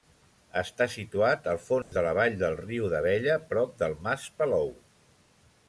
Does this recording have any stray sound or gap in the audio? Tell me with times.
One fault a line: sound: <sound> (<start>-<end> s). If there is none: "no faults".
sound: dropout (1.8-1.9 s)